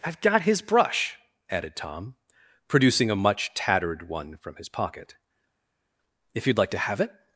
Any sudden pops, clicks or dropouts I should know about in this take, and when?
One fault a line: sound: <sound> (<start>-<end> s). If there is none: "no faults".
no faults